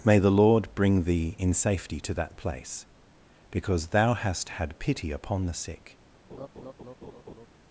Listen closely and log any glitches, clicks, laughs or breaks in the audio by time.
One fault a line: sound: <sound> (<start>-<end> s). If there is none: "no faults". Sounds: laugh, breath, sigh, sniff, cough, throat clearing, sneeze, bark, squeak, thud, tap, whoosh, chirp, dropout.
sound: laugh (6.3-7.5 s)